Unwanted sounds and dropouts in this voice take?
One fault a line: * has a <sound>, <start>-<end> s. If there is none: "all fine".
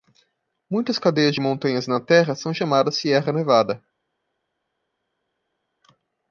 all fine